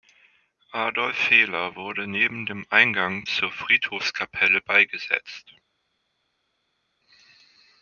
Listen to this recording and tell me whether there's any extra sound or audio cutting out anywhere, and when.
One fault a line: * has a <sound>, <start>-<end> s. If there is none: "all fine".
all fine